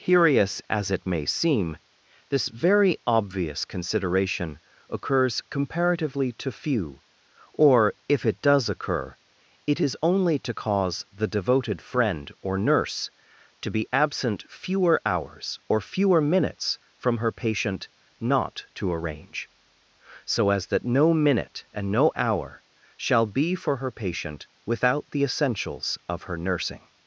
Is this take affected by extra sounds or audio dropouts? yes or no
no